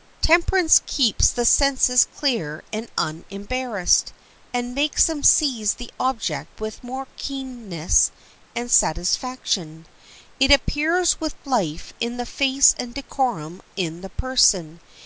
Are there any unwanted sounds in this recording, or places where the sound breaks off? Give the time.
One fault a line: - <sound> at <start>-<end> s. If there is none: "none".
none